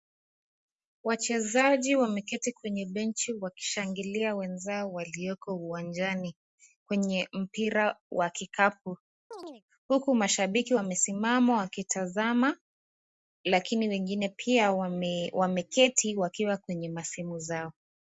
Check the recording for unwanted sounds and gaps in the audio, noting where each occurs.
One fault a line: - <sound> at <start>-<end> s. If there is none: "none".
- chirp at 9.3-9.6 s